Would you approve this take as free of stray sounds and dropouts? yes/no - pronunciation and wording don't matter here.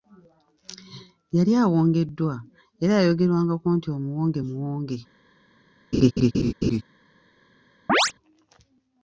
no